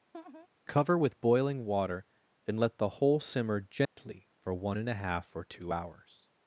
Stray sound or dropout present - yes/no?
yes